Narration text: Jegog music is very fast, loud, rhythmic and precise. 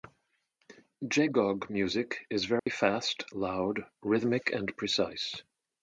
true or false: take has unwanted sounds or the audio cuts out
true